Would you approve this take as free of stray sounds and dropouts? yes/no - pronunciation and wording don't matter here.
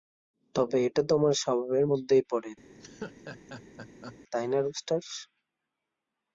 no